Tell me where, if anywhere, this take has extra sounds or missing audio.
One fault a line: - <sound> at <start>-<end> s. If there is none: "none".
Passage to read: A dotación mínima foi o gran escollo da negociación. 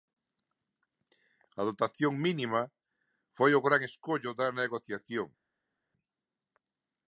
none